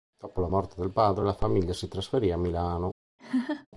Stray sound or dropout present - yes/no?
yes